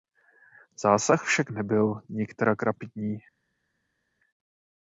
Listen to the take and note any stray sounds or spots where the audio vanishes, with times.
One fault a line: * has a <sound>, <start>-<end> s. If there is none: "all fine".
all fine